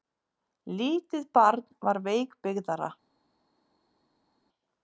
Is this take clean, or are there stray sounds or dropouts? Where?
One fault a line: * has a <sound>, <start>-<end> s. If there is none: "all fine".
all fine